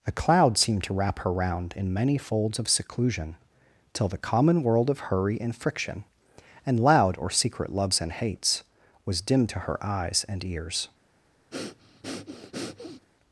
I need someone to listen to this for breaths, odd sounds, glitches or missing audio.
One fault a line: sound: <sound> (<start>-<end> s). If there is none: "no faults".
sound: breath (11.5-13.1 s)